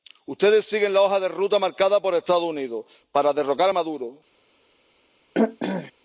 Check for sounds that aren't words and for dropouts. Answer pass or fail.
fail